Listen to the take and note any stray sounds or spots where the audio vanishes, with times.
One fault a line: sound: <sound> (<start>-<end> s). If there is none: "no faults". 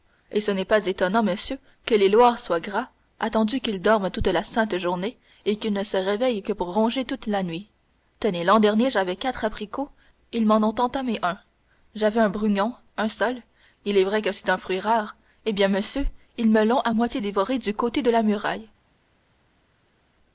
no faults